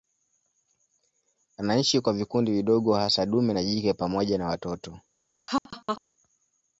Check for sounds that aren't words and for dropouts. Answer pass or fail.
fail